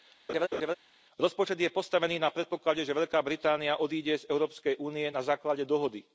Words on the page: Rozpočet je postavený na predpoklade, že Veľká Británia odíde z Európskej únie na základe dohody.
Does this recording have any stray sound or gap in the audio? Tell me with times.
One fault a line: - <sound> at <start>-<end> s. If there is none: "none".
- laugh at 0.3-0.7 s